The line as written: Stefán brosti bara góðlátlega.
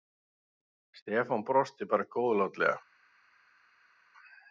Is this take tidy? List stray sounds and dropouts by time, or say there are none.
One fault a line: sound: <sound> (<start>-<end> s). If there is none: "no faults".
no faults